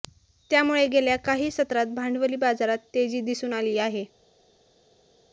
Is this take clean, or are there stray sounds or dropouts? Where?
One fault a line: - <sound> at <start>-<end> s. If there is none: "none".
none